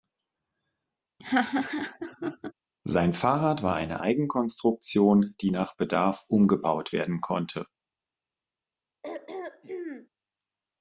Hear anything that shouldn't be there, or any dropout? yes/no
yes